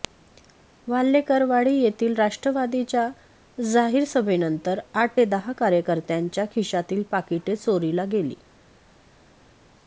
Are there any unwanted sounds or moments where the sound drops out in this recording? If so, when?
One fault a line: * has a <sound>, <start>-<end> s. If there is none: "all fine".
all fine